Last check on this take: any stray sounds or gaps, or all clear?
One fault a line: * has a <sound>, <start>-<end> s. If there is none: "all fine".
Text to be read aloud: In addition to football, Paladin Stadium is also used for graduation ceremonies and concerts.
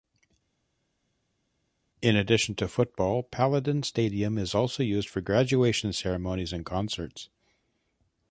all fine